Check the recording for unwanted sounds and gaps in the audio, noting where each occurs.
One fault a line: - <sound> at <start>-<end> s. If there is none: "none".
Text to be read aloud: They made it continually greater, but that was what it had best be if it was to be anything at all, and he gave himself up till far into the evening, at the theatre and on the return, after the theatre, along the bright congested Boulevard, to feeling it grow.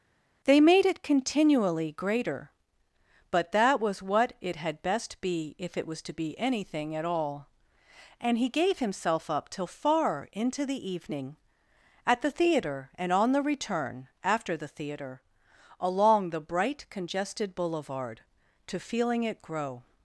none